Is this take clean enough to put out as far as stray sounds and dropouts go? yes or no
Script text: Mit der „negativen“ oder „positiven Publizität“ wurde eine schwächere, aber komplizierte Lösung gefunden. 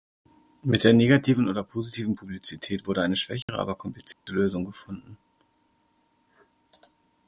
no